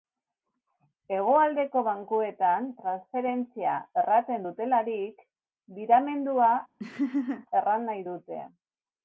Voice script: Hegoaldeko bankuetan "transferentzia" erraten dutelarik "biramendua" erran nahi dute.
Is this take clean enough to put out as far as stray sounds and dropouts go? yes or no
no